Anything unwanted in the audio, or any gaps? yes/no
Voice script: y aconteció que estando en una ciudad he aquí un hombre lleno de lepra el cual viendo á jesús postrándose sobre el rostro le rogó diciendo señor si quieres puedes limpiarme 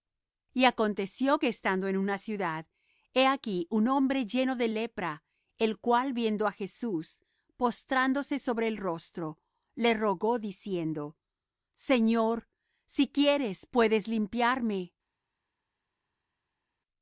no